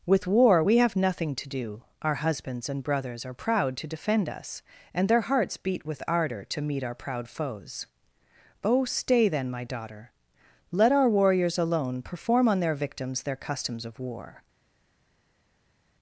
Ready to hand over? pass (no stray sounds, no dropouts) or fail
pass